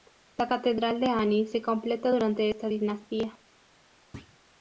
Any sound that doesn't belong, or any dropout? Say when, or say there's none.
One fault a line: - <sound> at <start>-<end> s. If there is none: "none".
- thud at 4.1-4.4 s